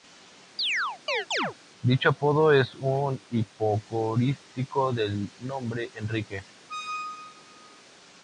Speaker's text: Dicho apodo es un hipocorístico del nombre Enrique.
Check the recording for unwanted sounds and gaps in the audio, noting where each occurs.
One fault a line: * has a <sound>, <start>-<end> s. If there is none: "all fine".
* has a chirp, 0.6-1.5 s
* has a squeak, 6.7-7.8 s